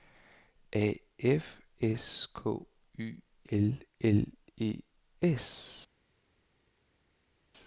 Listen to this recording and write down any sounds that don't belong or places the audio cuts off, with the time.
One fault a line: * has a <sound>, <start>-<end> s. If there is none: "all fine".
all fine